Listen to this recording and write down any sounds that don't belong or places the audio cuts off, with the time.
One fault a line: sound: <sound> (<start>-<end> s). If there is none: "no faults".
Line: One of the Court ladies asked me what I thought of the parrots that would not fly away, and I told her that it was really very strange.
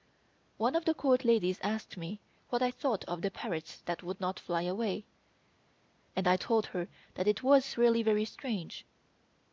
no faults